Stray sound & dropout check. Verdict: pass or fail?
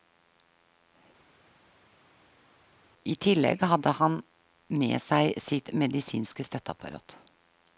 pass